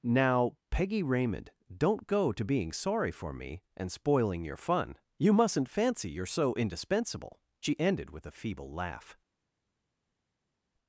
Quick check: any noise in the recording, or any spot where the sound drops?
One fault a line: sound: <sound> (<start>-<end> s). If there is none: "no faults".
no faults